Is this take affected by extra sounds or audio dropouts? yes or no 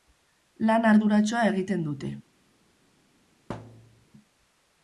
yes